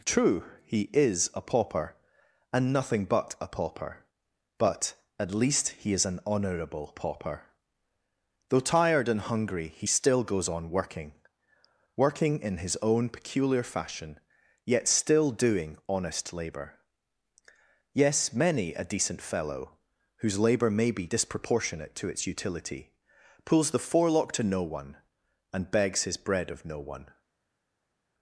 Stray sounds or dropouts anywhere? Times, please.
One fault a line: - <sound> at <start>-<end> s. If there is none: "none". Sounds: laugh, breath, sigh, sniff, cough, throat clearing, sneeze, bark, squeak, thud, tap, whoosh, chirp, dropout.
none